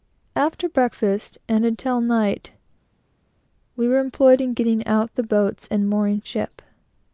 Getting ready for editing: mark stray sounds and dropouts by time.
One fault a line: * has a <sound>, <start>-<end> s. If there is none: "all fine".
all fine